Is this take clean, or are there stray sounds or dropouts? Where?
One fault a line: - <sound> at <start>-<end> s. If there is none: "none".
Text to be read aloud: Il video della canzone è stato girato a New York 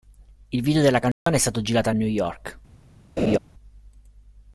- dropout at 1.1-1.3 s
- laugh at 3.2-3.4 s